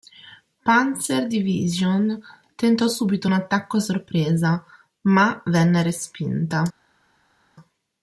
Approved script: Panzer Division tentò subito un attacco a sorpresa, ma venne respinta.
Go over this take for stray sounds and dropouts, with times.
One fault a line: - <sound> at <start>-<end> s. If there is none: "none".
none